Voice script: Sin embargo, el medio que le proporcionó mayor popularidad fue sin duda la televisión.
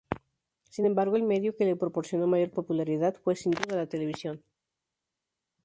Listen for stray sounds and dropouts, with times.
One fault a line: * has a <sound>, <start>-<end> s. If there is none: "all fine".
all fine